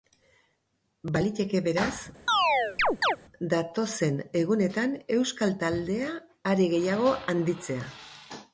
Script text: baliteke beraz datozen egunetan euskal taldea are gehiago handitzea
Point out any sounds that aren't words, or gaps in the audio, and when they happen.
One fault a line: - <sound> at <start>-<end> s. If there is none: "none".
- chirp at 2.3-3.2 s